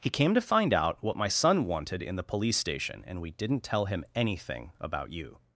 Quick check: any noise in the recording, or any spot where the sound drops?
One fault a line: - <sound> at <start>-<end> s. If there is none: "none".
none